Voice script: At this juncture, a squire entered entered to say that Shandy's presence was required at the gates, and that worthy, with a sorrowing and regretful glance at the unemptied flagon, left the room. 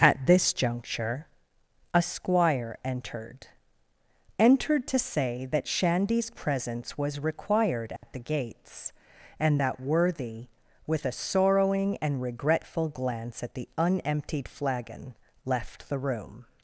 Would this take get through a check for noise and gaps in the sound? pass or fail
fail